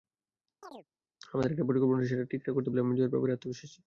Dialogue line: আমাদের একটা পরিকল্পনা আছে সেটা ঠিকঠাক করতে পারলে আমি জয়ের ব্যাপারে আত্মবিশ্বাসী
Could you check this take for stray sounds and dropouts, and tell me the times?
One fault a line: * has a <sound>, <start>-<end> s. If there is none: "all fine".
* has a chirp, 0.6-0.9 s